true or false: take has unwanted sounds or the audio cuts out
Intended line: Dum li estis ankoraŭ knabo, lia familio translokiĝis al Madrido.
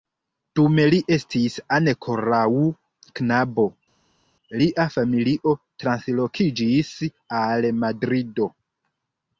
false